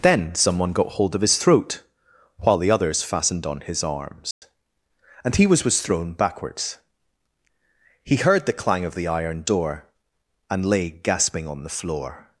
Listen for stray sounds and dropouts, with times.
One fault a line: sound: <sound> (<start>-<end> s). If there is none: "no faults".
sound: dropout (4.3-4.4 s)